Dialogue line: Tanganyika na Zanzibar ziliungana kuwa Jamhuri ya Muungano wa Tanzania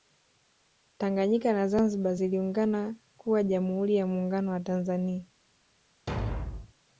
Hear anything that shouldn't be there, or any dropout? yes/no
yes